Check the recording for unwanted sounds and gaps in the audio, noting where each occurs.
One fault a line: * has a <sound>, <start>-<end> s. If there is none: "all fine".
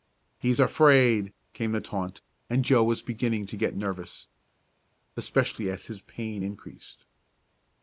all fine